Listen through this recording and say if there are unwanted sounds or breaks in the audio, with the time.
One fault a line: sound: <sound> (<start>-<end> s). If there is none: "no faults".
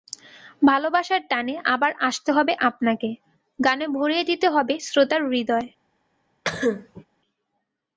sound: cough (6.4-7.0 s)